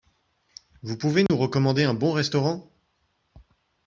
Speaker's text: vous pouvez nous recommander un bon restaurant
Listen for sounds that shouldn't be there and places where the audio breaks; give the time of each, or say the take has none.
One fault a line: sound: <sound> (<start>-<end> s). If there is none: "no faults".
sound: dropout (1.3-1.3 s)